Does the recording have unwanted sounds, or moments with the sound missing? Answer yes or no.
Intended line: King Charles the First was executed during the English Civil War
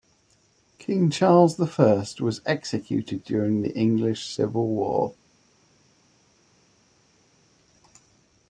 no